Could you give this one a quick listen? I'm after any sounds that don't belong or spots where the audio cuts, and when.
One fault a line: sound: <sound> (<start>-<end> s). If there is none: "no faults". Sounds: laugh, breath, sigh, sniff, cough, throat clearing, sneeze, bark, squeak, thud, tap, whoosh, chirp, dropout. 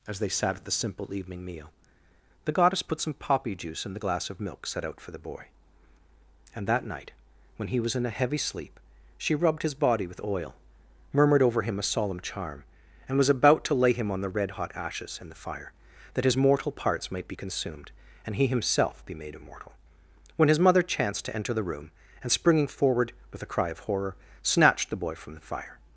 no faults